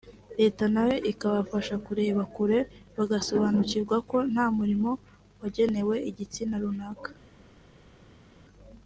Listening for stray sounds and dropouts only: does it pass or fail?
pass